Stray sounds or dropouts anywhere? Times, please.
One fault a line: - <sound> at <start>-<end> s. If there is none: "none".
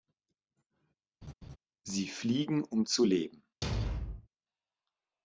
- laugh at 1.2-1.6 s
- thud at 3.6-4.3 s